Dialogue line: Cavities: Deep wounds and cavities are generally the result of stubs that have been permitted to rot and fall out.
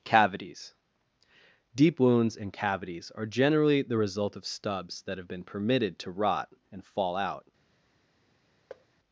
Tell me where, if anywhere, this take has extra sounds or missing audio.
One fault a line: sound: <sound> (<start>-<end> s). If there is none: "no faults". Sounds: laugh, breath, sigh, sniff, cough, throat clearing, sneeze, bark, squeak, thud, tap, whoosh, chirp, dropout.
sound: thud (8.7-8.9 s)